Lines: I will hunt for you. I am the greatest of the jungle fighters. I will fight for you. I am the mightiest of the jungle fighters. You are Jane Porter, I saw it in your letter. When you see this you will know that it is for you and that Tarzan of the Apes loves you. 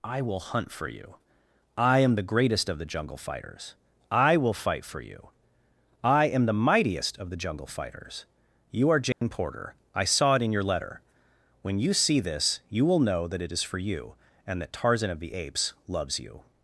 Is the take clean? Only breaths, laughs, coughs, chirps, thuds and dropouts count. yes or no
no